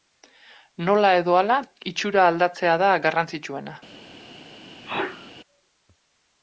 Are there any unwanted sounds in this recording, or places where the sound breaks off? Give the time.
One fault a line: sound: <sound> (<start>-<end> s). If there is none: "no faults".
sound: sneeze (4.8-5.3 s)